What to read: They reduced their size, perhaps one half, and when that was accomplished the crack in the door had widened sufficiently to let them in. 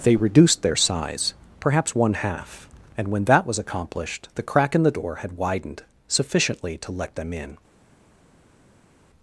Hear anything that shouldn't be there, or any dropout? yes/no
no